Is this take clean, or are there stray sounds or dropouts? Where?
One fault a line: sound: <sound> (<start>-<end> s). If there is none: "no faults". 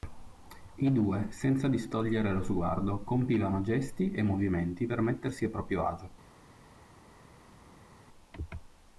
no faults